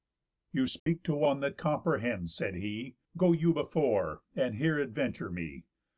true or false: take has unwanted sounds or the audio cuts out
true